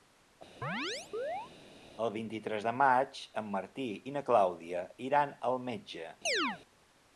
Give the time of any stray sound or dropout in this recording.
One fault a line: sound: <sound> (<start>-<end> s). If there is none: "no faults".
sound: chirp (0.6-1.5 s)
sound: chirp (6.3-6.6 s)